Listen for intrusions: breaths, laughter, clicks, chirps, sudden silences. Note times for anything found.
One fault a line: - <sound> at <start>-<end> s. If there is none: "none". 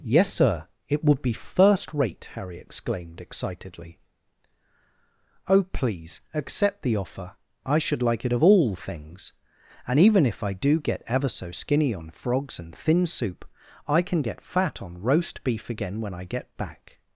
none